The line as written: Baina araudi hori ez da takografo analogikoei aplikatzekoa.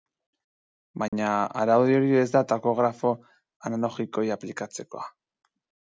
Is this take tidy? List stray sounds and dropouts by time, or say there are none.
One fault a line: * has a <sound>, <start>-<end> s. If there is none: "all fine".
* has a dropout, 1.1-1.1 s